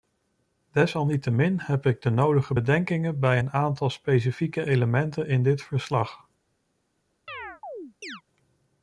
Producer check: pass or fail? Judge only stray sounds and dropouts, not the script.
fail